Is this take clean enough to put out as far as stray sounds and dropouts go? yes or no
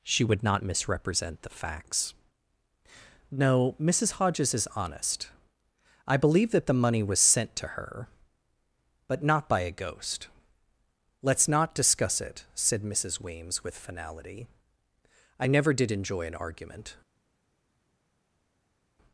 yes